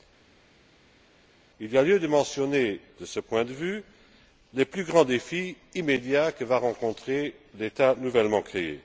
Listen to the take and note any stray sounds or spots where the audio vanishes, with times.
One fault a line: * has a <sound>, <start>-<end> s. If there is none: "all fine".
all fine